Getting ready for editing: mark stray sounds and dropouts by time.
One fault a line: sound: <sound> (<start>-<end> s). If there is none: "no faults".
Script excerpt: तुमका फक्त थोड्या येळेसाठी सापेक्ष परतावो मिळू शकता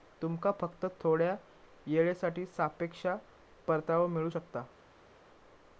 no faults